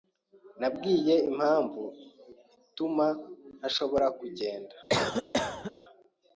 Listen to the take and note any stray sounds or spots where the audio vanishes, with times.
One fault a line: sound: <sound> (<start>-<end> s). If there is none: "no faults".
sound: cough (4.9-5.7 s)